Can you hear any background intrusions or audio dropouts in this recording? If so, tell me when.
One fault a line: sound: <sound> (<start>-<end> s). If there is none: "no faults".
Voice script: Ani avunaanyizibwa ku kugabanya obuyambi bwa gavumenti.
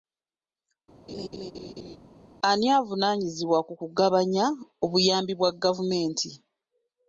sound: laugh (1.1-2.0 s)